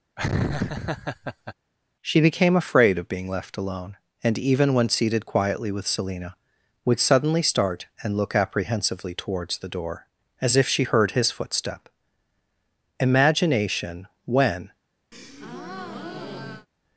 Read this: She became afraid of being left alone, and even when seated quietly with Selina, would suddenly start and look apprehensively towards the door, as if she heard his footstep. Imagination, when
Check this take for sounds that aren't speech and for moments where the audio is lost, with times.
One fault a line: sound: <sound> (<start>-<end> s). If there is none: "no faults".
sound: laugh (0.2-1.5 s)
sound: breath (15.1-16.7 s)